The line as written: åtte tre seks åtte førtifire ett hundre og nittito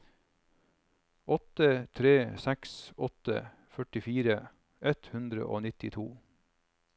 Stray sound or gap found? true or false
false